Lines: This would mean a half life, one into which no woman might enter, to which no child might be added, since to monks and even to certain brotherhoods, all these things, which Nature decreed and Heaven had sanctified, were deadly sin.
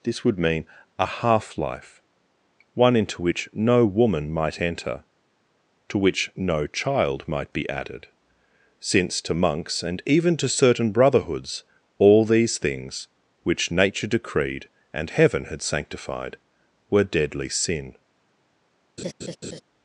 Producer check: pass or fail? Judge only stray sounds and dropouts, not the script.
fail